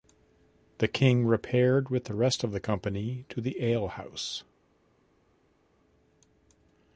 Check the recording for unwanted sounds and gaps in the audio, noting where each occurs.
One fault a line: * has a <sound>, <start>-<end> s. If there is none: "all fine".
all fine